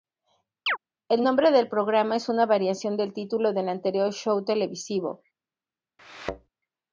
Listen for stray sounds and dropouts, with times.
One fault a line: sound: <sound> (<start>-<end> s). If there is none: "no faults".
sound: chirp (0.7-0.8 s)
sound: thud (6.0-6.5 s)